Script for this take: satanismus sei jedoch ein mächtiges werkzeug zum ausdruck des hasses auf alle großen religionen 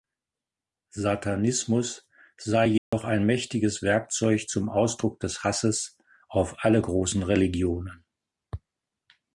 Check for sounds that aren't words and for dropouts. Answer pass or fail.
fail